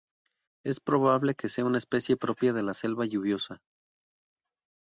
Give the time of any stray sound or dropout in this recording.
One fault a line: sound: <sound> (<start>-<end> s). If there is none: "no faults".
no faults